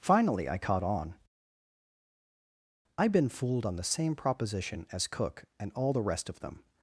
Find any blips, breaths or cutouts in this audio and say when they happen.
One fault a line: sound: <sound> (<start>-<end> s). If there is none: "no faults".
no faults